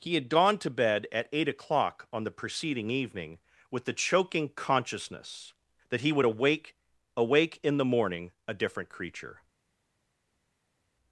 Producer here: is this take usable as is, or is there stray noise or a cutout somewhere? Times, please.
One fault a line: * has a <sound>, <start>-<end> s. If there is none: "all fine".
all fine